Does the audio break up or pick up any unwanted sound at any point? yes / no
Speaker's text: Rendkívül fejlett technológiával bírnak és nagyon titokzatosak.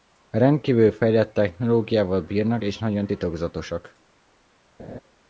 yes